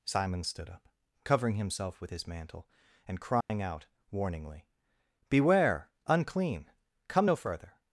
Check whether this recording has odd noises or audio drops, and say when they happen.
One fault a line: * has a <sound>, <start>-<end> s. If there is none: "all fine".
* has a dropout, 3.4-3.5 s